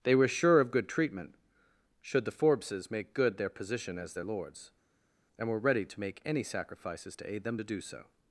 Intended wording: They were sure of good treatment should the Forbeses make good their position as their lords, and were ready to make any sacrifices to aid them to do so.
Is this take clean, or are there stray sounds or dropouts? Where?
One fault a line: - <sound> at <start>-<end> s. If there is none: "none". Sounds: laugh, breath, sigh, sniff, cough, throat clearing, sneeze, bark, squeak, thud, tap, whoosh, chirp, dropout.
none